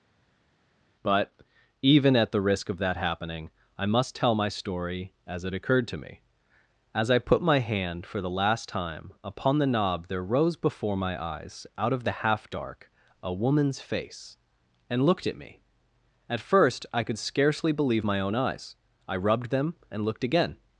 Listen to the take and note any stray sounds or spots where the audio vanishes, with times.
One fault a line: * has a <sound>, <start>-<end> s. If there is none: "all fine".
all fine